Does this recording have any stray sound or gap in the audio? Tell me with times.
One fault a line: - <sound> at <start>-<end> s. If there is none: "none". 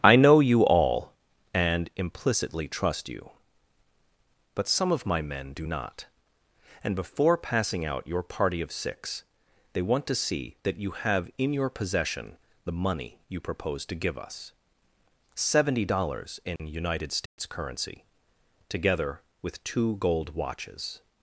- dropout at 16.6-16.6 s
- dropout at 17.3-17.4 s